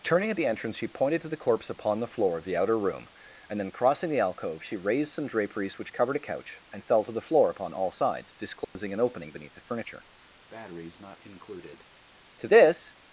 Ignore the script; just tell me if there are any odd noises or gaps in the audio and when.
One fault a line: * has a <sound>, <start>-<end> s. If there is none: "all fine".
* has a dropout, 8.6-8.8 s
* has a breath, 10.5-11.9 s